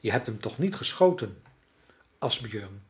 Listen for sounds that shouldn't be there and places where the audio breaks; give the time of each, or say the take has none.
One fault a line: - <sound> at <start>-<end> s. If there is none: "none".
none